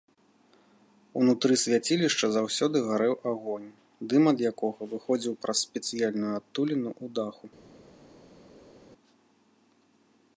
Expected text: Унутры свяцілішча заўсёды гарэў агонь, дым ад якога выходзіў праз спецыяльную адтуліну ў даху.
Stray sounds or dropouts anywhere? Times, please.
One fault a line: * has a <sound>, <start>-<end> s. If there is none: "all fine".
all fine